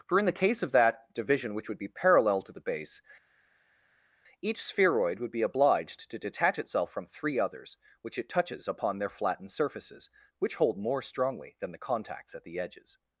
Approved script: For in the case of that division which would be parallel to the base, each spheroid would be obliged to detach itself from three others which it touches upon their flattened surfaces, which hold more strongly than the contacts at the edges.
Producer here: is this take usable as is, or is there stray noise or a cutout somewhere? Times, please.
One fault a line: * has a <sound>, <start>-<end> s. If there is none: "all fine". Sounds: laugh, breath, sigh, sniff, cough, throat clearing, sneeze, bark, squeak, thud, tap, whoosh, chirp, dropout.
all fine